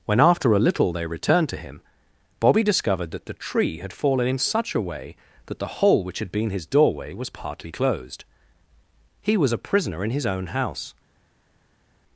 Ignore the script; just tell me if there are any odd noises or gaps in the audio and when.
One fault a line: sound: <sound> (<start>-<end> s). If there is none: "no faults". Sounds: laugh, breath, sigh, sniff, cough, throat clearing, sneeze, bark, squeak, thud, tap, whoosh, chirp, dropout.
no faults